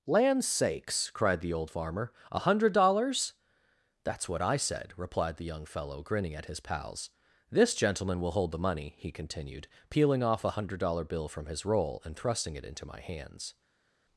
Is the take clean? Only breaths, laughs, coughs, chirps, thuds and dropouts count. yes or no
yes